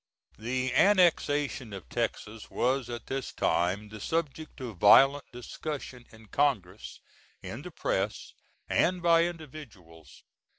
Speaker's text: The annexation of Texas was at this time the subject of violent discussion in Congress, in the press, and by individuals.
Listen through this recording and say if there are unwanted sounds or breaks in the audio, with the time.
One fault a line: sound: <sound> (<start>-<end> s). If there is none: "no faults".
no faults